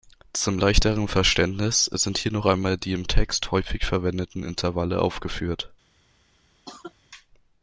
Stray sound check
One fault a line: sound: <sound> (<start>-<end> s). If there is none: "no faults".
sound: cough (6.7-6.9 s)